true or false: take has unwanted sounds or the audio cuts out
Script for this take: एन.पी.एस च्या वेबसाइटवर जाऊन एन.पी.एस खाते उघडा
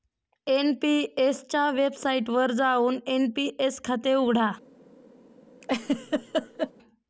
true